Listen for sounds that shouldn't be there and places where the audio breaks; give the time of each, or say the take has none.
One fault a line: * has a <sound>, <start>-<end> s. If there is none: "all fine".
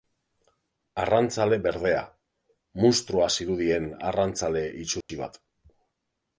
* has a dropout, 5.0-5.1 s